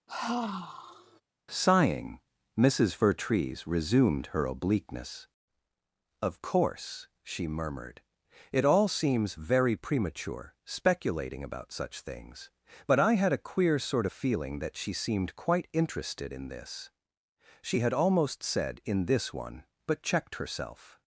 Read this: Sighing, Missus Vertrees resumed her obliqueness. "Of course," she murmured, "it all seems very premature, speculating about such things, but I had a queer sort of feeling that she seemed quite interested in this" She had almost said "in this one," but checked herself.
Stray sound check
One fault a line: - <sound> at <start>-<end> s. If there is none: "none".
- sigh at 0.1-1.2 s